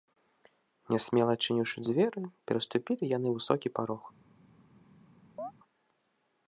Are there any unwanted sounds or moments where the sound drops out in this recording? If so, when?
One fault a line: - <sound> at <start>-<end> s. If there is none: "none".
- chirp at 5.4-5.5 s